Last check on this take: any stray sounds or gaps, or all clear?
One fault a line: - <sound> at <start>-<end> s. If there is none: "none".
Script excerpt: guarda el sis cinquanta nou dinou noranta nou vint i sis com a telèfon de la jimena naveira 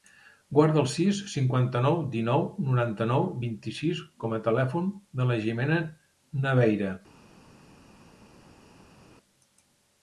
none